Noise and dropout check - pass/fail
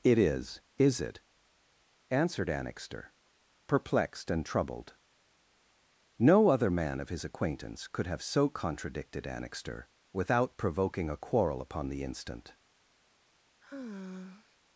fail